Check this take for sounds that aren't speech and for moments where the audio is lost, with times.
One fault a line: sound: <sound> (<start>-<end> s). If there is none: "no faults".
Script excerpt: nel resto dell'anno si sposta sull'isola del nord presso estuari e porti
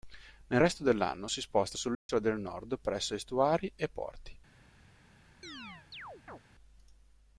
sound: dropout (1.9-2.1 s)
sound: chirp (5.4-6.4 s)